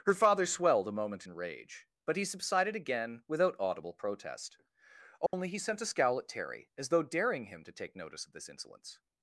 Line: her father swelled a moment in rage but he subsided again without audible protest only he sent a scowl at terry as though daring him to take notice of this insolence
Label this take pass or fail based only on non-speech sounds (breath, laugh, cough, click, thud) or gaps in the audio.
fail